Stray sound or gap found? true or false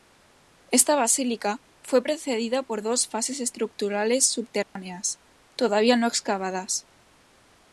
true